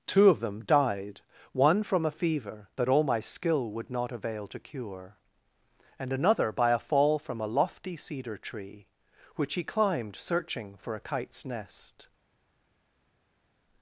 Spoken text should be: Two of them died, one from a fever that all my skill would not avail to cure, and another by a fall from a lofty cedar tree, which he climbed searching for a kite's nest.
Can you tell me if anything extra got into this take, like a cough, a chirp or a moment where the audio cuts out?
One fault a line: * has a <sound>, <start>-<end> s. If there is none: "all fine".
all fine